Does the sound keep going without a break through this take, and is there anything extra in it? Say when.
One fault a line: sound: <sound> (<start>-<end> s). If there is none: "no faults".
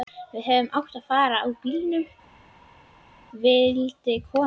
no faults